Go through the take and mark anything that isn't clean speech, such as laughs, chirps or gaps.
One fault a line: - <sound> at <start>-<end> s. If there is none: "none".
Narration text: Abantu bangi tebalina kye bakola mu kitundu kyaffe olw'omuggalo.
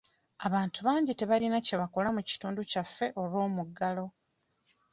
none